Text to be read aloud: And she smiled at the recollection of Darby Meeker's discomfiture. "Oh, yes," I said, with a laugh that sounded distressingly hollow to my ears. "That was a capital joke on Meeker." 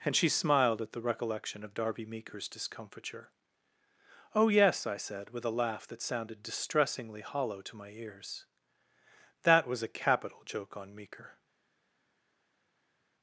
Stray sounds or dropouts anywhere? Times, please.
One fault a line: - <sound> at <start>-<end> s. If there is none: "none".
none